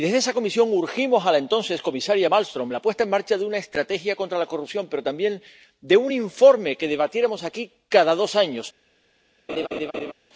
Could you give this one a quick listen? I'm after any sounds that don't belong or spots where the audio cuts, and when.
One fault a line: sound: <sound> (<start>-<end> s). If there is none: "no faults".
sound: laugh (9.5-10.1 s)